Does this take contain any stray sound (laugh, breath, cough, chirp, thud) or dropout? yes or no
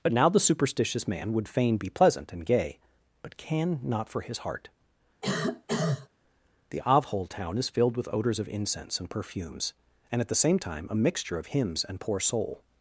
yes